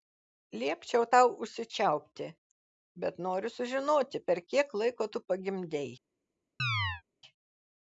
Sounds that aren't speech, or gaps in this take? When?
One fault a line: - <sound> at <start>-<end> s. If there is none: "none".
- chirp at 6.6-7.0 s